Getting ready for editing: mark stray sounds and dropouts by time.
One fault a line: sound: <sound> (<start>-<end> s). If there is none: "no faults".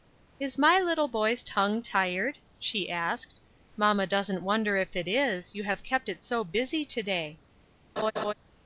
sound: laugh (8.0-8.3 s)